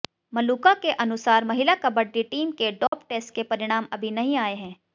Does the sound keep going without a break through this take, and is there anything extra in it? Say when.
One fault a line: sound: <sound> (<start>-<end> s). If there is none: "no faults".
sound: dropout (2.9-2.9 s)